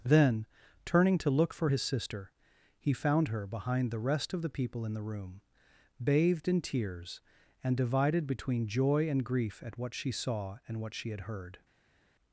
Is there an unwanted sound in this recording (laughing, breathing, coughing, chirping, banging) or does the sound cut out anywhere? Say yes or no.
no